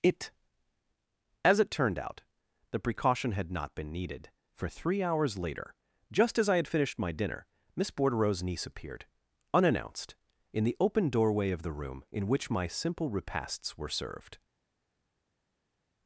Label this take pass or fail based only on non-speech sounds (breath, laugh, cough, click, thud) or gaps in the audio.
pass